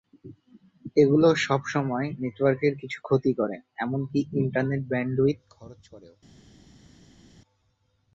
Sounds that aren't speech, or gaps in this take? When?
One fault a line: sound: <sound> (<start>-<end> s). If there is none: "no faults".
no faults